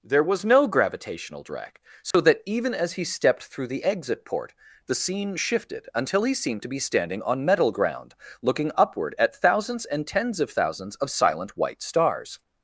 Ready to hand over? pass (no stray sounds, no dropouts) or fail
fail